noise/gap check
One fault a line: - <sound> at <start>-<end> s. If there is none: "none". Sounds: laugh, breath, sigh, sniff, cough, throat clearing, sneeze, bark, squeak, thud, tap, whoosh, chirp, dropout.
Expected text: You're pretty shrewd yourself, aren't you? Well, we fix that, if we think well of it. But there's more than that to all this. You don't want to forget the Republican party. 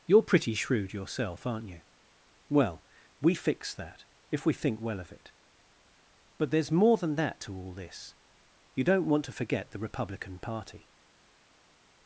none